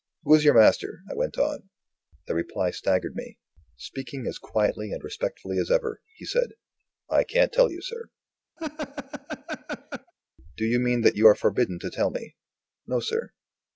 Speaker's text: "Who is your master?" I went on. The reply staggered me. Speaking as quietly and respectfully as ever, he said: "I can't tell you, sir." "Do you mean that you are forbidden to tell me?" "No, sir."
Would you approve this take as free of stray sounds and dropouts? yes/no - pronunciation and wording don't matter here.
no